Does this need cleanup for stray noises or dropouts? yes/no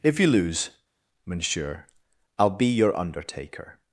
no